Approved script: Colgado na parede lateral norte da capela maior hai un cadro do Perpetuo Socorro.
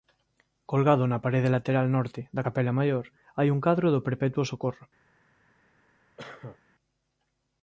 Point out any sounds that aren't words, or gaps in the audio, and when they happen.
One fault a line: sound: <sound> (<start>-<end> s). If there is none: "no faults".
sound: cough (6.2-6.6 s)